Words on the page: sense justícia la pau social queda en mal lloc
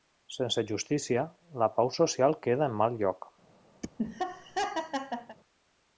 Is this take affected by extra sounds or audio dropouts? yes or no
yes